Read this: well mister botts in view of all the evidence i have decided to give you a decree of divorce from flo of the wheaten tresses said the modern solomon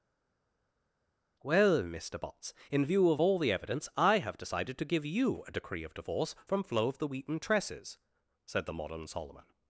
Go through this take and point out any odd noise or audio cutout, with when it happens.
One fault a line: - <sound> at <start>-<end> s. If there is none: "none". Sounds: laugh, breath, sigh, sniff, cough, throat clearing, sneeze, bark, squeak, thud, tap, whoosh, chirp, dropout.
none